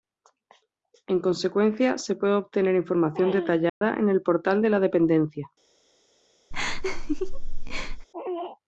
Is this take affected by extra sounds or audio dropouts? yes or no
yes